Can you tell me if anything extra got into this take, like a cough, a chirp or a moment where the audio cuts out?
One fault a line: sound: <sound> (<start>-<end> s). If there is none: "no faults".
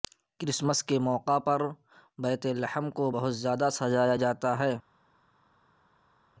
no faults